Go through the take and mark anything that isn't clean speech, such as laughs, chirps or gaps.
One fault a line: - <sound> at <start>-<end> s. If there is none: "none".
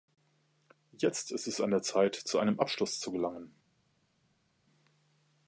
none